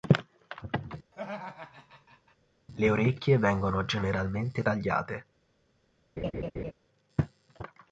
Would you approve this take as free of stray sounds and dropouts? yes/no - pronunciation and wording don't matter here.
no